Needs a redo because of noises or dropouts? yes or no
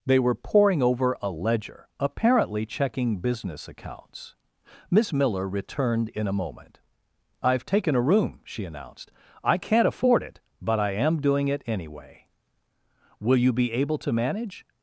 no